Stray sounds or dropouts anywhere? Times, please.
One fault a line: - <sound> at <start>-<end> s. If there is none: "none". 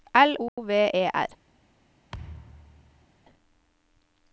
- dropout at 0.5-0.6 s
- thud at 2.1-3.1 s